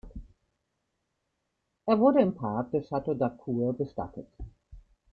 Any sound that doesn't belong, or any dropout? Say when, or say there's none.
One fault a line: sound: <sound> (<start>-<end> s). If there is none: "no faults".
no faults